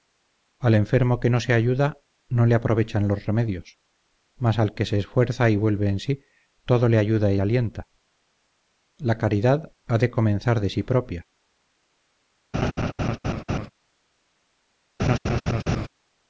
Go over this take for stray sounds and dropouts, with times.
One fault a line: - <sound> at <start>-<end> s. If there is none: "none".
- laugh at 12.5-13.7 s
- laugh at 15.0-15.9 s